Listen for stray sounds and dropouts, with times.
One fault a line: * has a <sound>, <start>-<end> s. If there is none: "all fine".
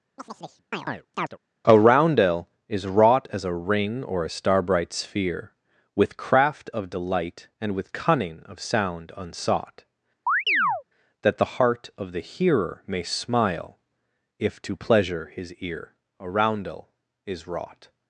* has a chirp, 0.2-1.4 s
* has a chirp, 10.3-10.8 s